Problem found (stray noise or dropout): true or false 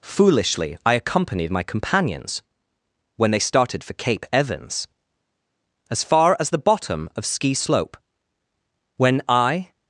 false